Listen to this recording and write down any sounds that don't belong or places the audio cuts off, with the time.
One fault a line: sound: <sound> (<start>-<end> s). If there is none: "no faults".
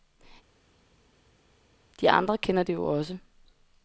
no faults